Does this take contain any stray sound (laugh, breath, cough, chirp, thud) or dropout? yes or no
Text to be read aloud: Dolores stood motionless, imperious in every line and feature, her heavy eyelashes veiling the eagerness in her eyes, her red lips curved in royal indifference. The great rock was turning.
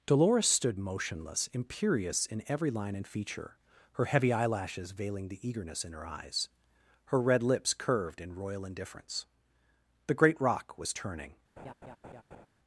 yes